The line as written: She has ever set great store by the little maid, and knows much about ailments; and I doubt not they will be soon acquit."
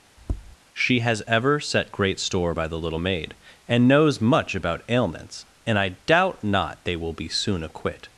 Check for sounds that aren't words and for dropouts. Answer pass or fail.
fail